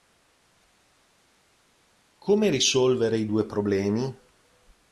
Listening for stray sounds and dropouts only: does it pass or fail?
pass